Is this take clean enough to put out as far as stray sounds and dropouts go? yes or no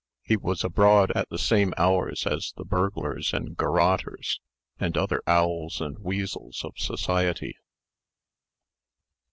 yes